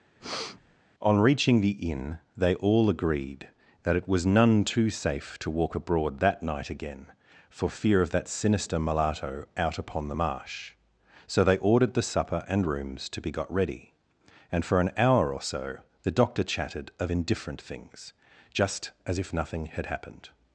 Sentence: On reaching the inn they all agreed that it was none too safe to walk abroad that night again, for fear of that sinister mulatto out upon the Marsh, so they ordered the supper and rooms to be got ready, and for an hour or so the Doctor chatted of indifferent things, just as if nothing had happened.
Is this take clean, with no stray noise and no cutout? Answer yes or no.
no